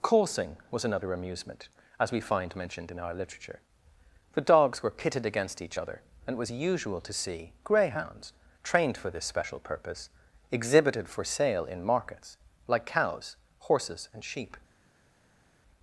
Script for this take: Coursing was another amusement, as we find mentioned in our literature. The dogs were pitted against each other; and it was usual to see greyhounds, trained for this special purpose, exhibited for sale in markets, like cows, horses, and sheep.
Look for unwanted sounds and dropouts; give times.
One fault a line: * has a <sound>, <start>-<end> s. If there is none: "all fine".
all fine